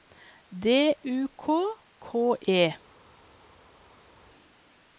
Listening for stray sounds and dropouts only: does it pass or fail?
pass